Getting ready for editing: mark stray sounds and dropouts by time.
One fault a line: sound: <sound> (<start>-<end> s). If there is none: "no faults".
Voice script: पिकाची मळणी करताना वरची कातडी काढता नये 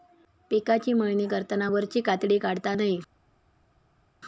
no faults